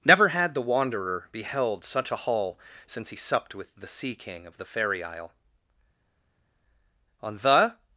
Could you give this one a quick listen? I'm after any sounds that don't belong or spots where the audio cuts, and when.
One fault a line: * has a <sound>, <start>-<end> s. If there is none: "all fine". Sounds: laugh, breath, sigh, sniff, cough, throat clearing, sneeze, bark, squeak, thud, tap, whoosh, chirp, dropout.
all fine